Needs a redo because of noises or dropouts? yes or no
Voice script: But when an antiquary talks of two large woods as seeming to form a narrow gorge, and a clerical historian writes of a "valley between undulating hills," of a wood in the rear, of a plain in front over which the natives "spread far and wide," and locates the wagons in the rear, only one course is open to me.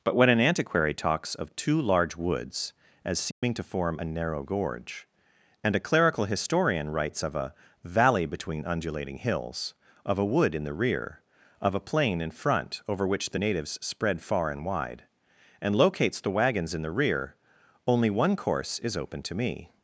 yes